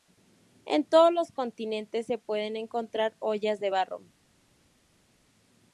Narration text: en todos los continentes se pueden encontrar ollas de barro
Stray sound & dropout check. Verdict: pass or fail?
pass